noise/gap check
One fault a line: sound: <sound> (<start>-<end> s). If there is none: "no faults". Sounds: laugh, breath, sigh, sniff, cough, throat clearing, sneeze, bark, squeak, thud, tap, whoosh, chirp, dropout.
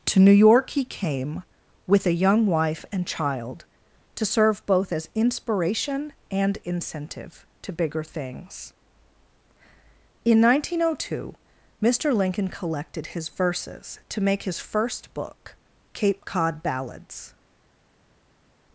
no faults